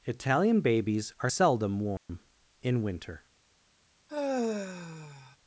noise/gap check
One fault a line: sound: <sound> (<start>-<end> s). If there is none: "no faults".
sound: dropout (2.0-2.1 s)
sound: sigh (4.1-5.4 s)